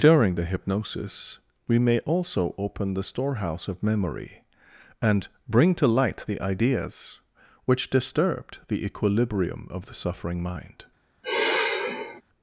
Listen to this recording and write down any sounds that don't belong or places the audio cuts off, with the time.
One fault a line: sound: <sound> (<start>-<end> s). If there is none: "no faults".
sound: sigh (11.2-12.2 s)